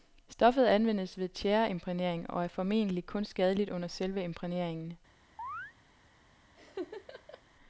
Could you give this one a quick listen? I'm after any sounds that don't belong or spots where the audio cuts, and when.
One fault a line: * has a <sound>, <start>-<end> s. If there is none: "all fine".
* has a chirp, 5.4-5.7 s
* has a laugh, 6.5-7.4 s